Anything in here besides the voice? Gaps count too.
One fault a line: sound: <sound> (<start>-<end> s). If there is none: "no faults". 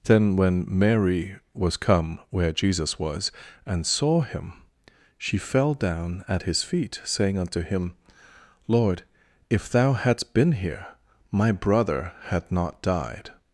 no faults